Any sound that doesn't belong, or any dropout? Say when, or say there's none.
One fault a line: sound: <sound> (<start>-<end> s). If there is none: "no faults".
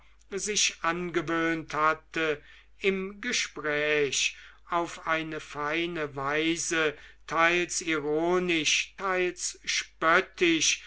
no faults